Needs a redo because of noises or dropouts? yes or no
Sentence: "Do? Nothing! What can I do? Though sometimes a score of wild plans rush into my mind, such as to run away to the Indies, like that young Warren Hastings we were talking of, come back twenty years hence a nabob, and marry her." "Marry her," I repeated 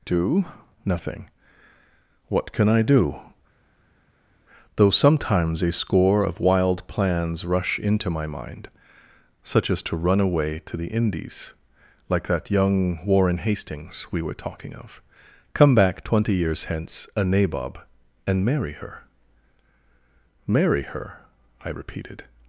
no